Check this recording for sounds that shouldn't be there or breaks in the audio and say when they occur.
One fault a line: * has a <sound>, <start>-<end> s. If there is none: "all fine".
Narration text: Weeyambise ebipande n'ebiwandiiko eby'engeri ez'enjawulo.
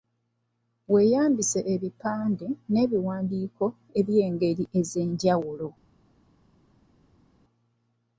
all fine